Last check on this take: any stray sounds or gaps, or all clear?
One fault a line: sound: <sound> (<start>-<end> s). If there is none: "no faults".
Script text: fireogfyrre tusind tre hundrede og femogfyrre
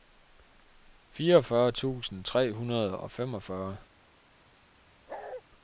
sound: bark (5.1-5.4 s)